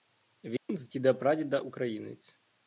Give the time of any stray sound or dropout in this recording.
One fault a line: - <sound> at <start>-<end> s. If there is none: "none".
- dropout at 0.6-0.7 s